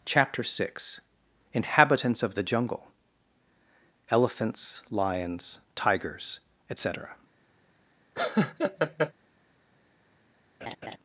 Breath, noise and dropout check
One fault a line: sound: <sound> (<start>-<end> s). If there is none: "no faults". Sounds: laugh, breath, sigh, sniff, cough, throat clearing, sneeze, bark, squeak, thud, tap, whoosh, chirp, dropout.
sound: laugh (8.2-9.1 s)
sound: laugh (10.6-11.0 s)